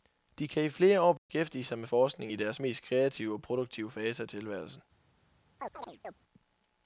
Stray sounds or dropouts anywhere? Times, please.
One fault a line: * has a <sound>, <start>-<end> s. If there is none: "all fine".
* has a dropout, 1.2-1.3 s
* has a chirp, 5.6-6.2 s